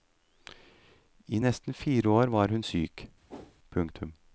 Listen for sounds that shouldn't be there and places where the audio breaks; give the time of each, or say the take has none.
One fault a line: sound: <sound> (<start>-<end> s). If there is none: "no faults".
sound: whoosh (3.3-3.6 s)